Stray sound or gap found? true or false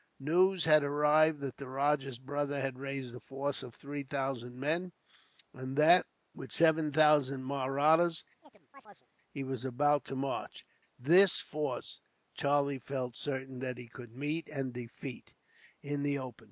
true